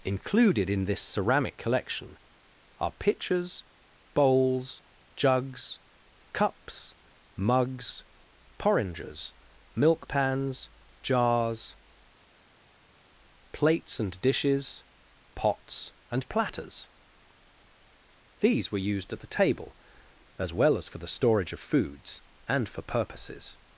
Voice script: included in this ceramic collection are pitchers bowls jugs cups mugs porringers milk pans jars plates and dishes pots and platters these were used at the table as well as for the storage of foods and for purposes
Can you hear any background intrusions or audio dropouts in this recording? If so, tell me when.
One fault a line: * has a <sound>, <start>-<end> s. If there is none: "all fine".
all fine